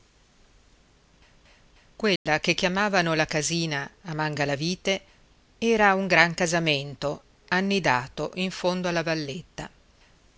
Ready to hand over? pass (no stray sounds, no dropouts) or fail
fail